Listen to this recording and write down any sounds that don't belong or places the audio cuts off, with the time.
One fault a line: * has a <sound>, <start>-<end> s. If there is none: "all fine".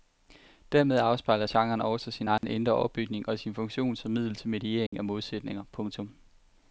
* has a dropout, 2.4-2.4 s
* has a dropout, 4.9-4.9 s